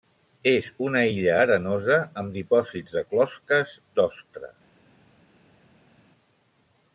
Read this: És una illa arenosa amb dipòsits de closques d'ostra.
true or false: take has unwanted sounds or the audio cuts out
false